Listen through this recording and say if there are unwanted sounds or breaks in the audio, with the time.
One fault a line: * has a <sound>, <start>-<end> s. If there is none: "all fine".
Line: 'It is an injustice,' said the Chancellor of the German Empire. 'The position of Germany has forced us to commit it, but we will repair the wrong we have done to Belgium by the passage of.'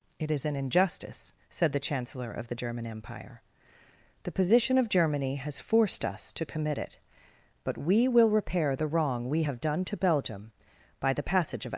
all fine